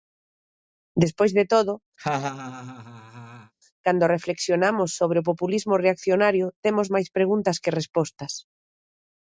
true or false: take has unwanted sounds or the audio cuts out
true